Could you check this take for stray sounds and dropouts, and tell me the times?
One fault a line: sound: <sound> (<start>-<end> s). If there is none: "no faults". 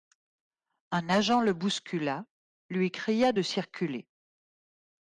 no faults